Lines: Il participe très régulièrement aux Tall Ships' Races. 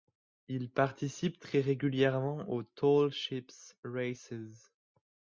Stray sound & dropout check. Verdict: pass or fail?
pass